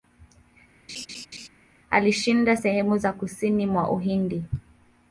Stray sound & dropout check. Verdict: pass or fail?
fail